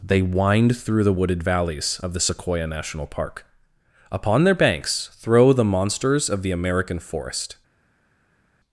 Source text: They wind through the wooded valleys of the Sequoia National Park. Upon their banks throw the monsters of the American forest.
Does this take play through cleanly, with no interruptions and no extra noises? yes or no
yes